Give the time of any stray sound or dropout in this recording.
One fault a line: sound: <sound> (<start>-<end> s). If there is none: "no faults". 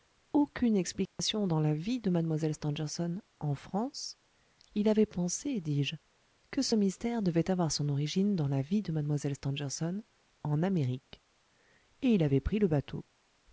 sound: dropout (1.1-1.2 s)